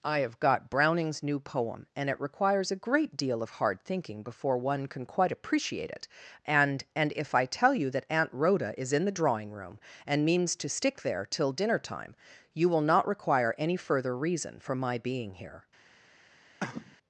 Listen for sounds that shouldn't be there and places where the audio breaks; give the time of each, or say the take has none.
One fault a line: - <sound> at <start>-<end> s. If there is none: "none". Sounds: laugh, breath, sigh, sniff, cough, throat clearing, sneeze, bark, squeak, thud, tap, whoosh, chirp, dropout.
- cough at 16.6-17.0 s